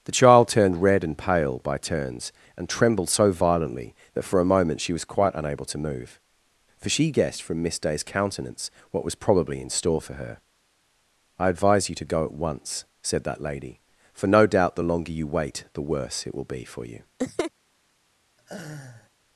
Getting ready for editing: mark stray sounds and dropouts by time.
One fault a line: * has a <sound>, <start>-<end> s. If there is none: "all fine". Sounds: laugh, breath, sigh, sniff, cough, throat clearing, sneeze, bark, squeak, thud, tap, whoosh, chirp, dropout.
* has a laugh, 17.2-17.5 s
* has a laugh, 18.4-19.1 s